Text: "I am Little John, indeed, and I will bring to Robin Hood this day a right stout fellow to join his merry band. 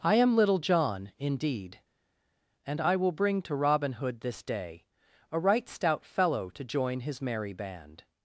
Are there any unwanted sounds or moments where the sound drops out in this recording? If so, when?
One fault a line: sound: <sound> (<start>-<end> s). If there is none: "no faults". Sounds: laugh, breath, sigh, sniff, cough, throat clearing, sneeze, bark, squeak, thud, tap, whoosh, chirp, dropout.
no faults